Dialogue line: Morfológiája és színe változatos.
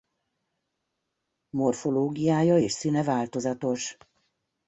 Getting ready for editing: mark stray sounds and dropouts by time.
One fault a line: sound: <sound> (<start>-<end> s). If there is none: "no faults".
no faults